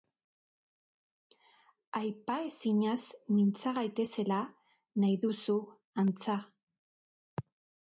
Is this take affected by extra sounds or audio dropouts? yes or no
no